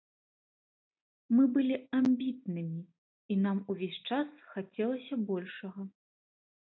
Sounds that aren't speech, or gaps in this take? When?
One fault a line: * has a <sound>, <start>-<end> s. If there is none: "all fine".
all fine